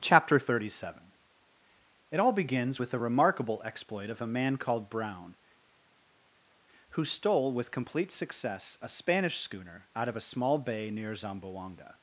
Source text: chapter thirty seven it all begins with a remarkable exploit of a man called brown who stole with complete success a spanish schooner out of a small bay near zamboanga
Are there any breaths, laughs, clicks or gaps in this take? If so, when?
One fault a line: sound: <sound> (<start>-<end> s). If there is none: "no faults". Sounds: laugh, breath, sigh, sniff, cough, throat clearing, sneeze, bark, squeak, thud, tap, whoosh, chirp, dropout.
no faults